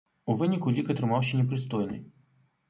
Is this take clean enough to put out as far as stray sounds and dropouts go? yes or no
yes